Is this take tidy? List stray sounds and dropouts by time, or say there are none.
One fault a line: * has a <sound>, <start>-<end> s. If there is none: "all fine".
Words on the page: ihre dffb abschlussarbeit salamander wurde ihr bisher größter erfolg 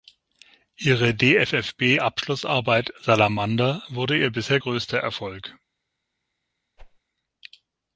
* has a whoosh, 6.8-7.0 s